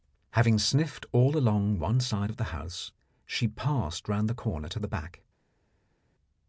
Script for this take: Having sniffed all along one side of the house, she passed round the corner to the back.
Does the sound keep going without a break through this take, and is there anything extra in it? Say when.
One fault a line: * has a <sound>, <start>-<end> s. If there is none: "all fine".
all fine